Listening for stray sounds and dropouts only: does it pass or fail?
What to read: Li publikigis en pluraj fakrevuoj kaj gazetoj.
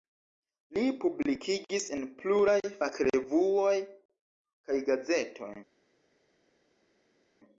pass